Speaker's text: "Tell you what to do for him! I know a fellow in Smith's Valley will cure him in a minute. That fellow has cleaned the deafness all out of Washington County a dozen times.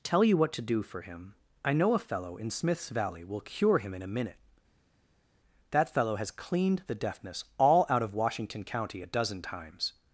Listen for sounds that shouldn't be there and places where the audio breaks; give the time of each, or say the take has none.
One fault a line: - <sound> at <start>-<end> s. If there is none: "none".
none